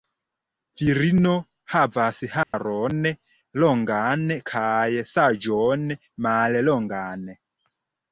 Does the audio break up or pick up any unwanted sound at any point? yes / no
yes